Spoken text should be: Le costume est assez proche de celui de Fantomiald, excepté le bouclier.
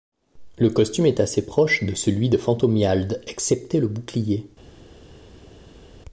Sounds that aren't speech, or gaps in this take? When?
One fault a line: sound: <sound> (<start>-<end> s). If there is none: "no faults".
no faults